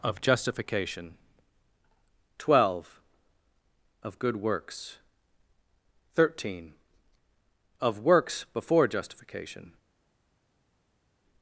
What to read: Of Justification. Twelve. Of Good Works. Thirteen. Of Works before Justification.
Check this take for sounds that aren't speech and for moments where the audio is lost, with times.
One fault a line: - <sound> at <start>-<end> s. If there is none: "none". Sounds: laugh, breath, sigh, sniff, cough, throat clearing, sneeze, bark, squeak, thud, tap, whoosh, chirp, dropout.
none